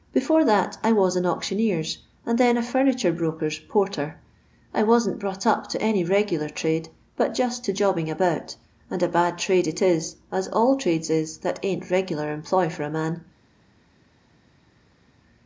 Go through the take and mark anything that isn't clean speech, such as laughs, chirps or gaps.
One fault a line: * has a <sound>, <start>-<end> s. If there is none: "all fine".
all fine